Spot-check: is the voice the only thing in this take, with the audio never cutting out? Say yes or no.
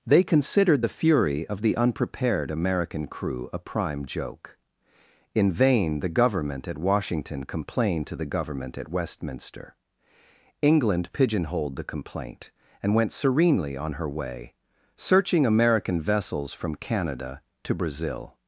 yes